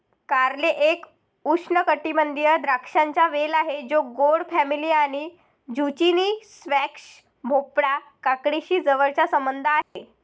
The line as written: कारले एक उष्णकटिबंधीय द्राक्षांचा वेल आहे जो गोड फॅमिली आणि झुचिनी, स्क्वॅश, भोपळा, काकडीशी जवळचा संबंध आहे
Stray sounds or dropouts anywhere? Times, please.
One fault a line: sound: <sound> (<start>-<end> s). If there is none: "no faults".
sound: dropout (9.8-10.0 s)